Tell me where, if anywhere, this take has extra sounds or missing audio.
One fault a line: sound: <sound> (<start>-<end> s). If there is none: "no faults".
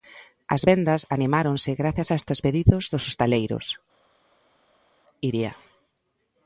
no faults